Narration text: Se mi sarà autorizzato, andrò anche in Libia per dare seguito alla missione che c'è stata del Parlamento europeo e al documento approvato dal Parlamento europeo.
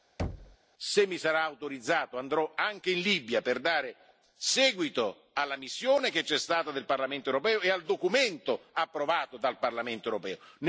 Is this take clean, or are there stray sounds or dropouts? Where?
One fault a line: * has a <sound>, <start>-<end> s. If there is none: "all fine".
* has a thud, 0.2-0.6 s